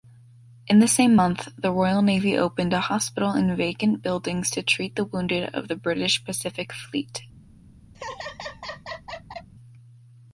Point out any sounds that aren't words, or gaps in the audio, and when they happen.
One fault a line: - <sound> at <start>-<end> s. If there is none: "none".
- laugh at 7.9-9.5 s